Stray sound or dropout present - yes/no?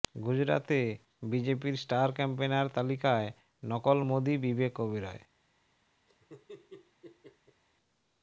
yes